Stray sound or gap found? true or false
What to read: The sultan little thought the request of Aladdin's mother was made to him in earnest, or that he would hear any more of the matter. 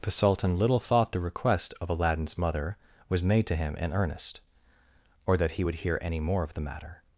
false